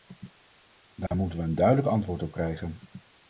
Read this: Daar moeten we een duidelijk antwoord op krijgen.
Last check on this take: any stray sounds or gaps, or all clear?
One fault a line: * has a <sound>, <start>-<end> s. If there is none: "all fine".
* has a dropout, 1.1-1.1 s